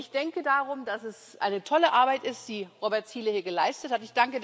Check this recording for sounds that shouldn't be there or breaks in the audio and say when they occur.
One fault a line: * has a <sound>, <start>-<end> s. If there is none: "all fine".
all fine